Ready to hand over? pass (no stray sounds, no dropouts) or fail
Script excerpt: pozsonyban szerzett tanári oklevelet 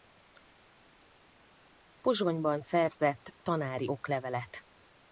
pass